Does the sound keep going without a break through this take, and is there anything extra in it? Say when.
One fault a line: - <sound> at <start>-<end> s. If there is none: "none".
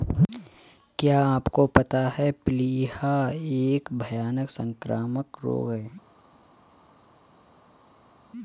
none